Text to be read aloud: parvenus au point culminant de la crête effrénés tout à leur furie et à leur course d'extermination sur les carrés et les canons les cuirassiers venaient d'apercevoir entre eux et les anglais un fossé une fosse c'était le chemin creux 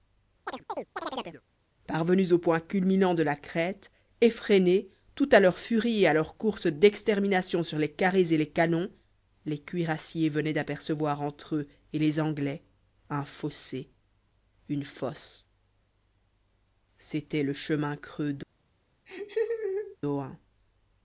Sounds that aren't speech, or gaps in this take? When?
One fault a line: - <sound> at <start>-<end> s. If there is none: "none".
- chirp at 0.5-1.4 s
- laugh at 19.1-20.0 s